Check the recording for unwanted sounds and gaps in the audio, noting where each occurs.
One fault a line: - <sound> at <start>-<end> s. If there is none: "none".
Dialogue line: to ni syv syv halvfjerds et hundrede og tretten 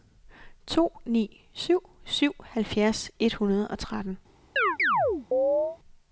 - chirp at 4.6-5.8 s